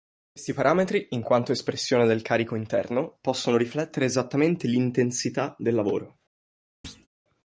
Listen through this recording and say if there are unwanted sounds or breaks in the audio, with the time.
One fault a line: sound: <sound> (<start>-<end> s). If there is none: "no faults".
sound: thud (6.8-7.1 s)